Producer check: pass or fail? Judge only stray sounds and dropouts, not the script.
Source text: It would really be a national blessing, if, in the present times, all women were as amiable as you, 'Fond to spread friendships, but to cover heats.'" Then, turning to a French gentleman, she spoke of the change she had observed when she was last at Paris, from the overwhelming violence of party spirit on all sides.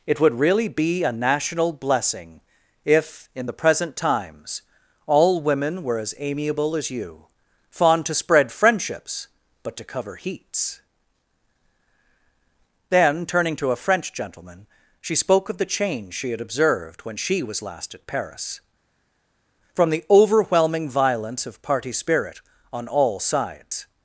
pass